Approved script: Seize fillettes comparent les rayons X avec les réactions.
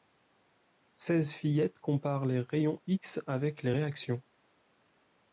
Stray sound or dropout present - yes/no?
no